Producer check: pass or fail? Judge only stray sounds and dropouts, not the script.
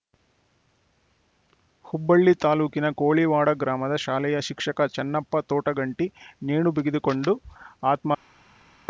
pass